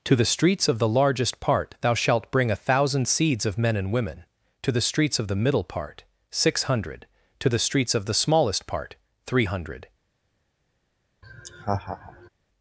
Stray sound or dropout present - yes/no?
yes